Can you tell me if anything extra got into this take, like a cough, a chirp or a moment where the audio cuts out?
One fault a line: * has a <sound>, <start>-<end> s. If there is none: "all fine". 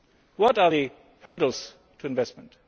* has a dropout, 1.3-1.4 s